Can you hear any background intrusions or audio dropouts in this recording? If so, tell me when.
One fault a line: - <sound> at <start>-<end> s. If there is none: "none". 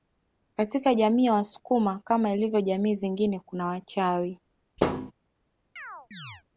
- thud at 4.8-5.1 s
- chirp at 5.8-6.4 s